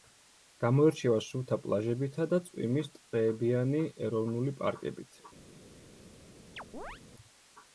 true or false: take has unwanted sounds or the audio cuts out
true